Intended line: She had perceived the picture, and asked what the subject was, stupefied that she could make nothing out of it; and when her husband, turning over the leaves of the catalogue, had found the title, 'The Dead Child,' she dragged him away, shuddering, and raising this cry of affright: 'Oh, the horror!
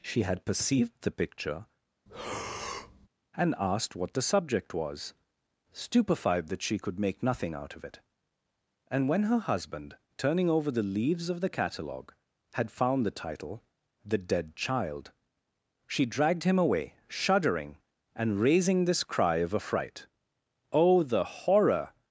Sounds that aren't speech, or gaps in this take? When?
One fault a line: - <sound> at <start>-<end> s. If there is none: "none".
- breath at 2.1-3.1 s